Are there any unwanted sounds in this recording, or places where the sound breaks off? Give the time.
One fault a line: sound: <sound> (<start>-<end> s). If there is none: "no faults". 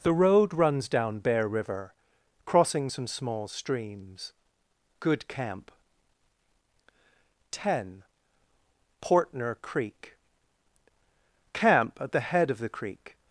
no faults